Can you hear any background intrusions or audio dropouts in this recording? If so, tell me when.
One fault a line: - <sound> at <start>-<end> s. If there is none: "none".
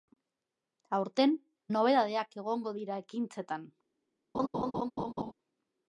- laugh at 4.3-5.3 s